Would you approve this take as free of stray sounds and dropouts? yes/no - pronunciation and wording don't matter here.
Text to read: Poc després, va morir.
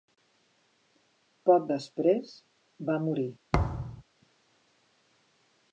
no